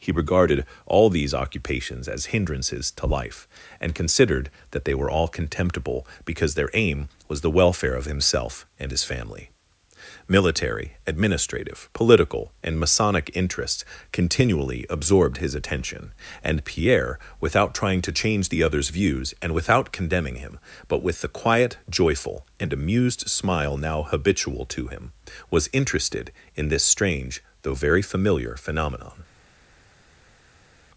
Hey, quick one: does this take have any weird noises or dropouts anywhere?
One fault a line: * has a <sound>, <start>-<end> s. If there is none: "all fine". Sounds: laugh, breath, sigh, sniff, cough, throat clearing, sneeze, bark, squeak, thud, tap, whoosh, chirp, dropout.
all fine